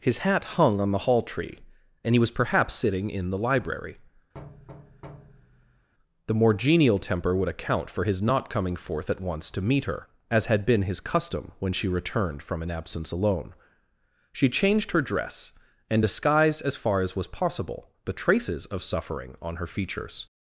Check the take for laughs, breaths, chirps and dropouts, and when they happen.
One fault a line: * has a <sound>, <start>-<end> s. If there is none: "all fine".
* has a thud, 4.3-5.9 s